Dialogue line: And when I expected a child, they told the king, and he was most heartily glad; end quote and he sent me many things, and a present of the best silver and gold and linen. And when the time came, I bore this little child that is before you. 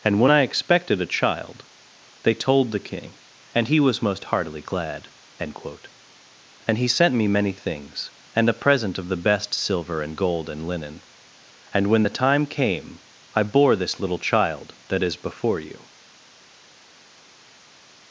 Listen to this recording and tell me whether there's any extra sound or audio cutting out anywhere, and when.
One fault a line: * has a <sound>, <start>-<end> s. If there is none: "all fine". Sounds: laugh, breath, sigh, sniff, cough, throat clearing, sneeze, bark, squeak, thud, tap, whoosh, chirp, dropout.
all fine